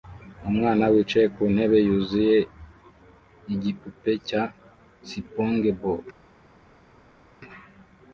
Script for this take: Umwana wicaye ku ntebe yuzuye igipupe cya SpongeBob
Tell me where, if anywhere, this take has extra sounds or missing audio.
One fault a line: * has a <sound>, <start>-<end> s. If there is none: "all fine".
all fine